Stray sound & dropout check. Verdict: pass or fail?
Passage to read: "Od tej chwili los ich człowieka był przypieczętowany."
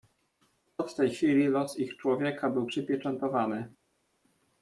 pass